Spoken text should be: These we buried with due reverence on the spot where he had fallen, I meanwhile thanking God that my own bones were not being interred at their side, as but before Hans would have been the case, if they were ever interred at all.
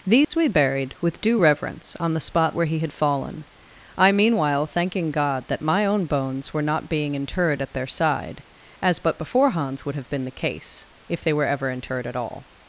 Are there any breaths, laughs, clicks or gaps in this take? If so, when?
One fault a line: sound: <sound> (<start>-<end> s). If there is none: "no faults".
sound: dropout (0.2-0.3 s)